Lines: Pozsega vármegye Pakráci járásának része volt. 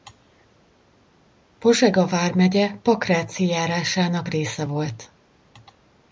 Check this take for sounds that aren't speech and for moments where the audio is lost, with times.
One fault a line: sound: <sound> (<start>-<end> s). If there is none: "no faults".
no faults